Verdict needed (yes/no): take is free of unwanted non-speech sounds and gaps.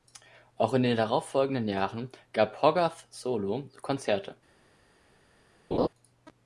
no